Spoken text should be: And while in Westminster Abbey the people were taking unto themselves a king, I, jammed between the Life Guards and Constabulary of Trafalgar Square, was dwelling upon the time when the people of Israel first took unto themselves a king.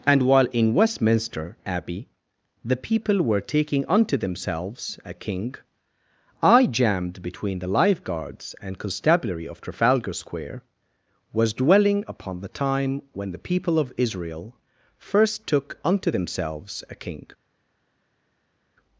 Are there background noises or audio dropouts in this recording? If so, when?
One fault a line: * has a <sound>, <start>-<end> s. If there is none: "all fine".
all fine